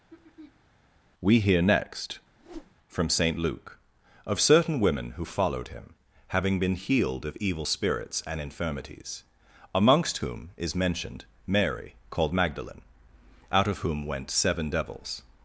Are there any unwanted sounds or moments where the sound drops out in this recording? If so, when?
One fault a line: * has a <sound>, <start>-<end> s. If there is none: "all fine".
* has a throat clearing, 0.1-0.7 s
* has a whoosh, 2.4-2.7 s